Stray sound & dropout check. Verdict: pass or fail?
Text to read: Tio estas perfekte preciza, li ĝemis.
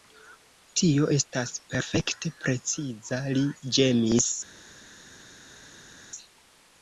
pass